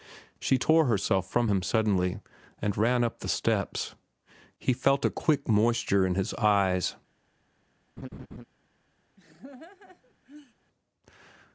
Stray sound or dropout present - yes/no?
yes